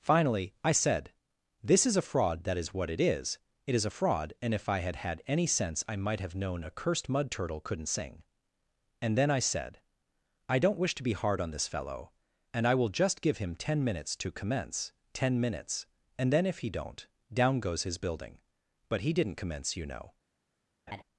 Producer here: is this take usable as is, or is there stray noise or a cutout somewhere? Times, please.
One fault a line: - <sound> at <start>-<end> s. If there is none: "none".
- laugh at 20.9-21.0 s